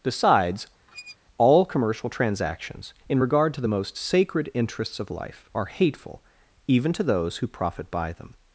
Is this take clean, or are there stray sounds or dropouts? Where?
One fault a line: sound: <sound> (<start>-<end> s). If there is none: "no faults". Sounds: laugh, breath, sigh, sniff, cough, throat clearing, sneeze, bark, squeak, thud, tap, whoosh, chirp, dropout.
sound: squeak (0.9-1.2 s)